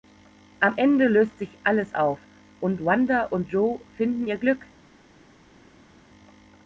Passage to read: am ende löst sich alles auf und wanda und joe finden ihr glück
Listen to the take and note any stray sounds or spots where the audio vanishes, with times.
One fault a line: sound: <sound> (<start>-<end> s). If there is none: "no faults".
no faults